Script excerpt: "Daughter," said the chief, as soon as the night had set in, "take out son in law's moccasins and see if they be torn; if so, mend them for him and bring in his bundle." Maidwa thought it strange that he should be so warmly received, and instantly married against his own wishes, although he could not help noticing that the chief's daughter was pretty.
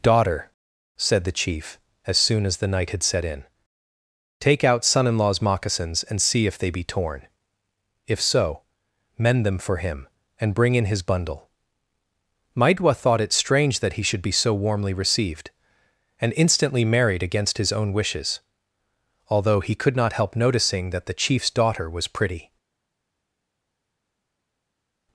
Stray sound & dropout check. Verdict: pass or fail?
pass